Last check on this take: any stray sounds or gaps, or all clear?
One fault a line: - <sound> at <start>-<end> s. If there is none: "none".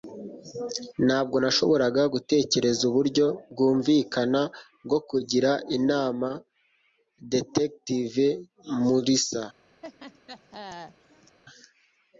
- laugh at 9.8-11.4 s